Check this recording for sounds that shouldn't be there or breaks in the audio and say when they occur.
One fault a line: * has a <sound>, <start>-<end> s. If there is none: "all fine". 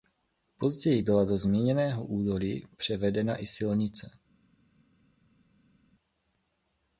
all fine